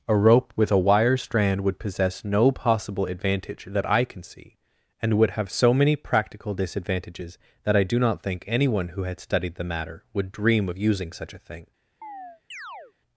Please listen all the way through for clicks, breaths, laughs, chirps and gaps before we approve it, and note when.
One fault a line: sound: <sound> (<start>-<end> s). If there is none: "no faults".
sound: chirp (12.0-12.9 s)